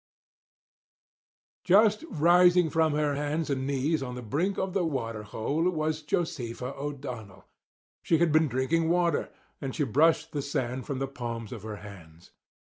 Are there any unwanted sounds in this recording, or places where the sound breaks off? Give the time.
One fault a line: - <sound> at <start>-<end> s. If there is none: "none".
none